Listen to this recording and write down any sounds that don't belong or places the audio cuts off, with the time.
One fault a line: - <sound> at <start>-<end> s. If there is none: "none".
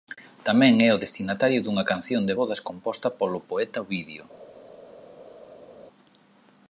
none